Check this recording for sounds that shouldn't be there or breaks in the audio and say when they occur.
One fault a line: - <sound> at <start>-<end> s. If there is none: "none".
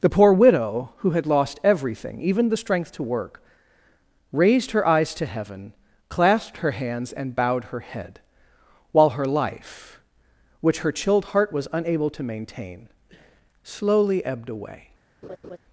- laugh at 15.2-15.6 s